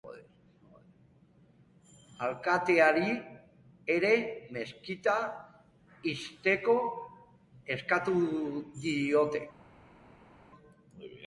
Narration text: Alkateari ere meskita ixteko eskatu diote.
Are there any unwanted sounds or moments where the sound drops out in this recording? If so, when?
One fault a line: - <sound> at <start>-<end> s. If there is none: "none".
none